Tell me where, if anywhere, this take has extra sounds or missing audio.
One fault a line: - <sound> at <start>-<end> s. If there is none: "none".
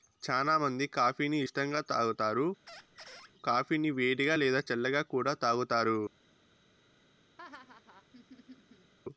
- squeak at 2.7-3.3 s
- laugh at 7.4-8.9 s